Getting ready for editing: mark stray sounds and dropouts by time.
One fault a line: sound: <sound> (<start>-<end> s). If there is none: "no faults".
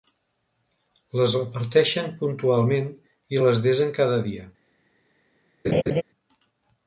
sound: laugh (5.6-6.0 s)